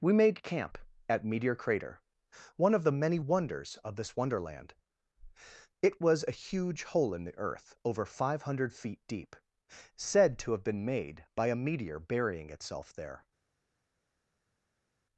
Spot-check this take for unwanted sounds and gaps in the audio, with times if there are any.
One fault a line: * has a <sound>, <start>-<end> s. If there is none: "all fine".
all fine